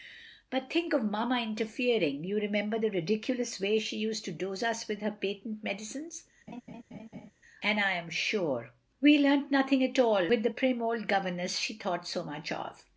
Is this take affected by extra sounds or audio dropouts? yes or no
yes